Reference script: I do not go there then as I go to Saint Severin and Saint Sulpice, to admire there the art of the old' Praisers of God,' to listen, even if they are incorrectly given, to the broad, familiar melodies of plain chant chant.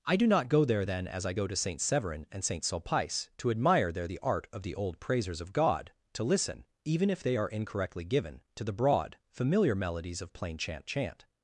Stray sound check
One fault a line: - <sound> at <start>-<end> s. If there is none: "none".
none